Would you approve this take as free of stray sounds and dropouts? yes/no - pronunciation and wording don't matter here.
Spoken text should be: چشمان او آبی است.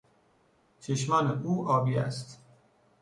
yes